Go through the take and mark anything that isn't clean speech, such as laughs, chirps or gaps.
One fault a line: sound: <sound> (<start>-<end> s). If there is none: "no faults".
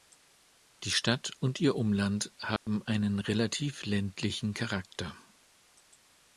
sound: dropout (2.6-2.7 s)